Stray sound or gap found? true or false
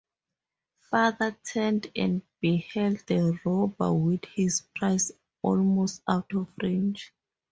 false